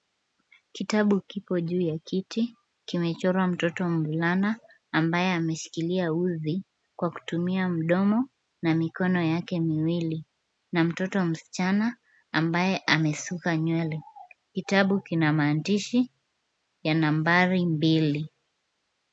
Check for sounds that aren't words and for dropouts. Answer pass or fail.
pass